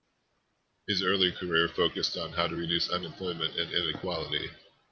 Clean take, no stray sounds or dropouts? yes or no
yes